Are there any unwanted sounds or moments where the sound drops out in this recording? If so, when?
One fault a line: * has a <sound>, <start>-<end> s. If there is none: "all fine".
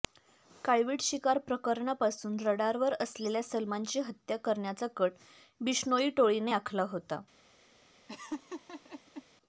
* has a laugh, 8.1-9.2 s